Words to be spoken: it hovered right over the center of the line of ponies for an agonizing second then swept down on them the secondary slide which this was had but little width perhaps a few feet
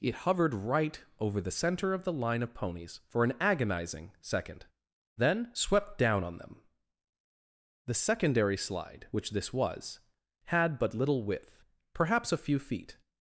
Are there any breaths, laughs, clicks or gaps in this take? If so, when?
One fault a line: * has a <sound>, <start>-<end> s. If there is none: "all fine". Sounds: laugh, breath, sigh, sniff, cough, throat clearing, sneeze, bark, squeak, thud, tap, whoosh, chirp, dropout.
all fine